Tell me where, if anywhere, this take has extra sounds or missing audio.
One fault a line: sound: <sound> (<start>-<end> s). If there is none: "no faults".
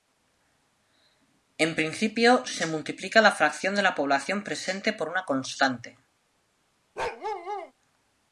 sound: bark (7.0-7.7 s)